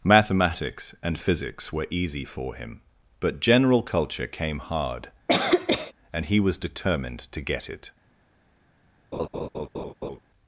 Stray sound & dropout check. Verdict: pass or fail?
fail